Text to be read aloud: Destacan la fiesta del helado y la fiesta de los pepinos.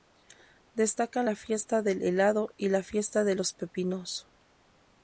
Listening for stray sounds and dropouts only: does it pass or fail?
pass